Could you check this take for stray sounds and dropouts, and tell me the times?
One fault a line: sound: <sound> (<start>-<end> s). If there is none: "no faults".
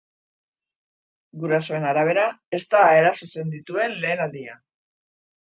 no faults